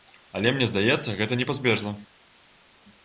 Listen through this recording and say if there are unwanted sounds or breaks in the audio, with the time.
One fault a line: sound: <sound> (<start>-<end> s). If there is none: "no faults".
no faults